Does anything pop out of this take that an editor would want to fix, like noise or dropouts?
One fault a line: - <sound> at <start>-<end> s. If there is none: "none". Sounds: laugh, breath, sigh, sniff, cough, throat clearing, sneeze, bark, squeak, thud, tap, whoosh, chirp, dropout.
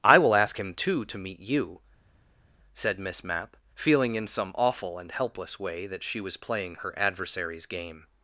none